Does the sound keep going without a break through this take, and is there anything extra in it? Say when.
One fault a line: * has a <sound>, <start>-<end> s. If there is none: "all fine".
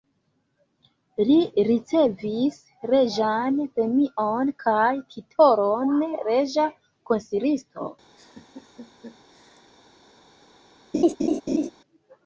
* has a laugh, 8.2-9.7 s
* has a laugh, 10.9-11.7 s